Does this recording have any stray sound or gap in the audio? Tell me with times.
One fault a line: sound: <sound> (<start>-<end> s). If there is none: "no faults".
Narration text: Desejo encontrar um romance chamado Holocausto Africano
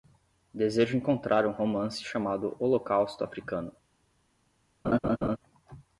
sound: laugh (4.8-5.4 s)